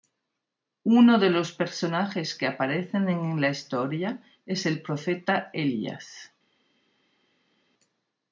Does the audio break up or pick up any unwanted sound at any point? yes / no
no